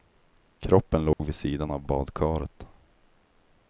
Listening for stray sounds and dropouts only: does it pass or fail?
fail